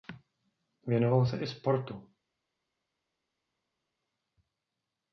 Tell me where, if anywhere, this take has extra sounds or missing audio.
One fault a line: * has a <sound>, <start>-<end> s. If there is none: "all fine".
all fine